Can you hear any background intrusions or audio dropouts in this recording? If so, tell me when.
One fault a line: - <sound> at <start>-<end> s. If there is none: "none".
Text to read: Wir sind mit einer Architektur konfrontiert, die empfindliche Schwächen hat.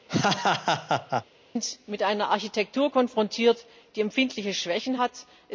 - laugh at 0.1-1.2 s